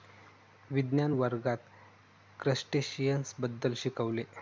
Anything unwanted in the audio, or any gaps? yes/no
no